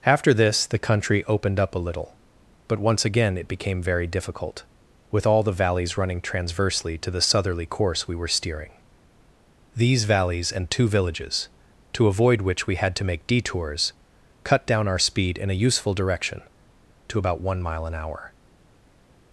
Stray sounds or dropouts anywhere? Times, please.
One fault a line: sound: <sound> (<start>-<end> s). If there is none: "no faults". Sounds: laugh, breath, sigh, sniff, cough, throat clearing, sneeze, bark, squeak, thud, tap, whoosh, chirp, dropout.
no faults